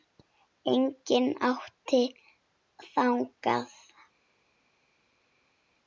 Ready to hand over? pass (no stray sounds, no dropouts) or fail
pass